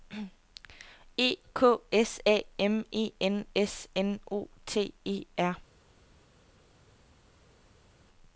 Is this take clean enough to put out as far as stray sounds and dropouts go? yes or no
yes